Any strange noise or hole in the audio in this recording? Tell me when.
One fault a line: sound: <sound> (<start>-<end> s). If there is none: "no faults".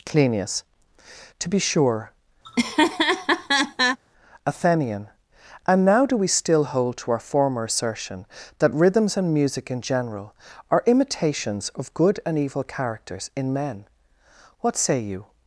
sound: laugh (2.4-4.0 s)